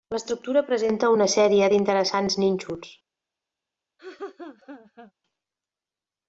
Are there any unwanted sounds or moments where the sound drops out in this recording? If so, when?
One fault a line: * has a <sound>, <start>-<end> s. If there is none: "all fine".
* has a laugh, 4.0-5.1 s